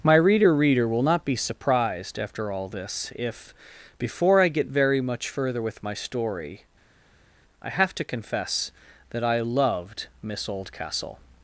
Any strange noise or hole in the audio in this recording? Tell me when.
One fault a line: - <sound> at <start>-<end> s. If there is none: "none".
none